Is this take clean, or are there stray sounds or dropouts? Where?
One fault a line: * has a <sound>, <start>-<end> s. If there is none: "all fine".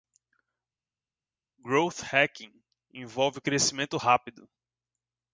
all fine